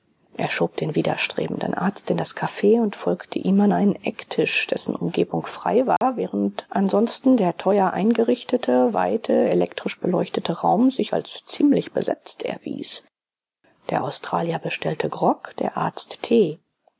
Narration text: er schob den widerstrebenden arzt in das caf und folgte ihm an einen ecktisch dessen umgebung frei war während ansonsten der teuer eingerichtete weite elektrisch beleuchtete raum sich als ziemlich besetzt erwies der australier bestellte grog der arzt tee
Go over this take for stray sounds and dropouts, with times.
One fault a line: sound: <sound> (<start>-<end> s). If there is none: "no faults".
sound: dropout (6.0-6.0 s)